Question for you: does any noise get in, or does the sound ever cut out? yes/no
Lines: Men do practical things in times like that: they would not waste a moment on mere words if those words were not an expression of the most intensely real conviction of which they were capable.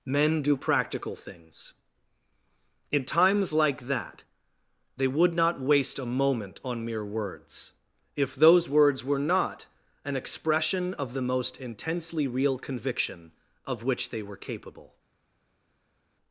no